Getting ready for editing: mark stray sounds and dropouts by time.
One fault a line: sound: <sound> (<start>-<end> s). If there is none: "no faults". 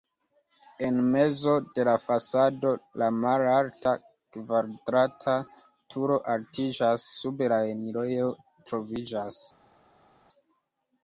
no faults